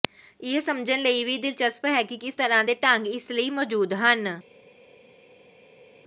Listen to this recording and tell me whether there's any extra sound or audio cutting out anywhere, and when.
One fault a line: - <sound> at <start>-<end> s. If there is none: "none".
none